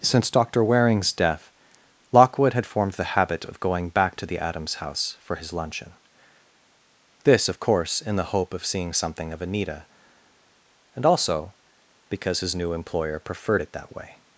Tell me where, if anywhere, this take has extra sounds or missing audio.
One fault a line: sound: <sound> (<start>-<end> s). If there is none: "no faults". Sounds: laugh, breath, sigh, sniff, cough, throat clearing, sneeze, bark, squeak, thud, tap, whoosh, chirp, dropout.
no faults